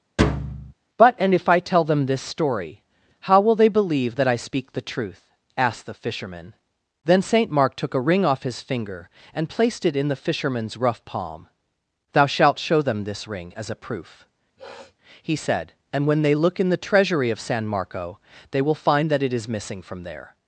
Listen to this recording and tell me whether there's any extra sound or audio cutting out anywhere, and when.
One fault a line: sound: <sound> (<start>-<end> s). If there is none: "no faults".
sound: thud (0.2-0.7 s)
sound: sniff (14.6-15.0 s)